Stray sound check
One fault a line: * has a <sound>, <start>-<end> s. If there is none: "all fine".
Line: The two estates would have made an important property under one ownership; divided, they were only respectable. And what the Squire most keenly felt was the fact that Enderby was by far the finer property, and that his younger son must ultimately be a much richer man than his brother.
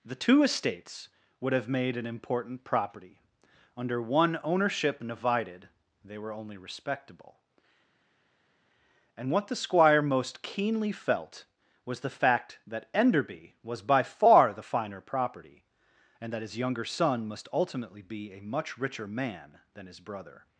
all fine